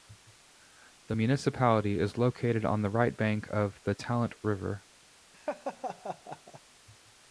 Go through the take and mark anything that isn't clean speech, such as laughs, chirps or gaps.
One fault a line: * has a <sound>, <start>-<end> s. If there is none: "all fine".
* has a laugh, 5.3-6.6 s